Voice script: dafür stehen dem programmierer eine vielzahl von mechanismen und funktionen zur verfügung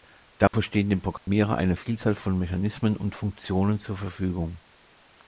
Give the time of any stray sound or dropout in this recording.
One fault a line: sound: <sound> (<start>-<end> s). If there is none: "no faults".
sound: dropout (0.5-0.5 s)
sound: dropout (1.2-1.3 s)